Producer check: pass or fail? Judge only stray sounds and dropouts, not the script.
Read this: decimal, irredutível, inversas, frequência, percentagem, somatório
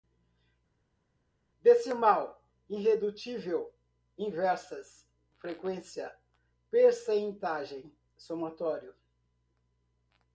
pass